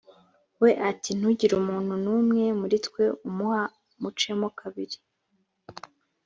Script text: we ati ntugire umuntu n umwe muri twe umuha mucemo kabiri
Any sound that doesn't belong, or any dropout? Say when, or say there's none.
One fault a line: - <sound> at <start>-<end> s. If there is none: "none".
none